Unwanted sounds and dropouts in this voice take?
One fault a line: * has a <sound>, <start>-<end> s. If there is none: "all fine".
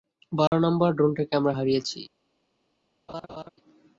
* has a dropout, 0.5-0.5 s
* has a laugh, 3.1-3.5 s